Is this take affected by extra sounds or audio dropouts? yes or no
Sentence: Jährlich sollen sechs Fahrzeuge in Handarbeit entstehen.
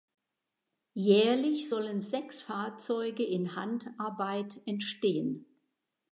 no